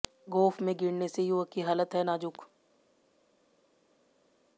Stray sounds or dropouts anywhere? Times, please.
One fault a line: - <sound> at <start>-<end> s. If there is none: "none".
none